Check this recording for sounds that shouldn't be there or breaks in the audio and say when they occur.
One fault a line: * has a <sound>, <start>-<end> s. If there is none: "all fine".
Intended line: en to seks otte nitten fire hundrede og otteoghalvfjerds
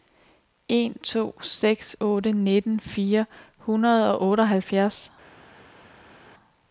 all fine